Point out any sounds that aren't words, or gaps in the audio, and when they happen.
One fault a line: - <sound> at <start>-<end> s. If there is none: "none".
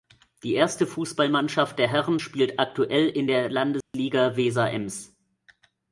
- dropout at 3.8-3.9 s